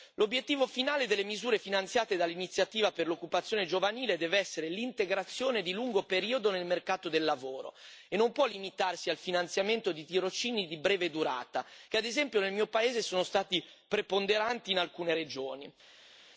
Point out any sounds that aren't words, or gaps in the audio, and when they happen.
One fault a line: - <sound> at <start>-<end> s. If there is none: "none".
none